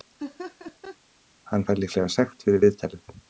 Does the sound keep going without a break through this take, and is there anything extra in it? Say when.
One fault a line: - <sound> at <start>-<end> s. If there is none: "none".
- laugh at 0.2-1.0 s